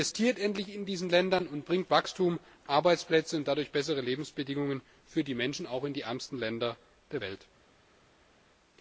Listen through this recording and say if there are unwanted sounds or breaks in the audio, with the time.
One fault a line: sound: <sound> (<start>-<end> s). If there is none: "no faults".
no faults